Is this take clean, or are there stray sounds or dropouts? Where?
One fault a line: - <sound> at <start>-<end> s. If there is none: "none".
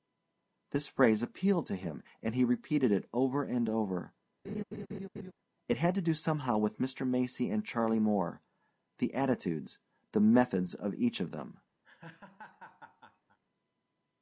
- laugh at 4.4-5.3 s
- laugh at 11.8-13.4 s